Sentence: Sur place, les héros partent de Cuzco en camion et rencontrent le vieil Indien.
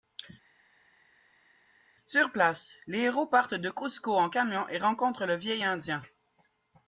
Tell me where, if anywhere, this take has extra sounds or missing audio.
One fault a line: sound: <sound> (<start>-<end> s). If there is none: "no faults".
no faults